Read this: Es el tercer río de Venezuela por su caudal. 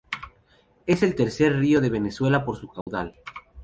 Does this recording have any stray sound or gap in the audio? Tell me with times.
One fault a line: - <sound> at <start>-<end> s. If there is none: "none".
- dropout at 2.8-2.9 s